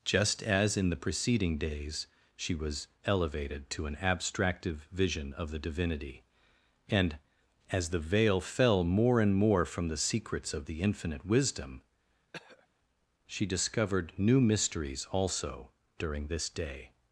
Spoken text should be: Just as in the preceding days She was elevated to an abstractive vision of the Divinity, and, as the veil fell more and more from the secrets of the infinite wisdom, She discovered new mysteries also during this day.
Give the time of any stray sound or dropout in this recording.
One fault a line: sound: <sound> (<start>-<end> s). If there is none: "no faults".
sound: throat clearing (12.3-12.7 s)